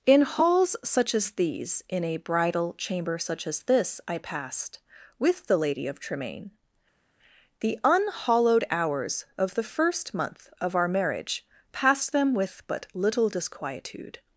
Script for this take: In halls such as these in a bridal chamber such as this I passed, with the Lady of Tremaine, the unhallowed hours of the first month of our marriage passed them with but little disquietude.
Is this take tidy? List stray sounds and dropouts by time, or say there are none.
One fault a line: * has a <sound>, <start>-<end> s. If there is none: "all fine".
all fine